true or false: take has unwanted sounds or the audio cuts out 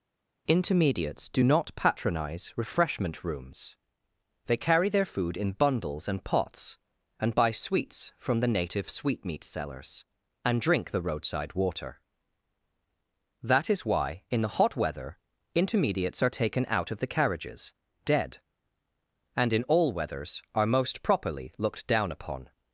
false